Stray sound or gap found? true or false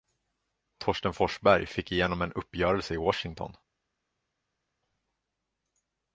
false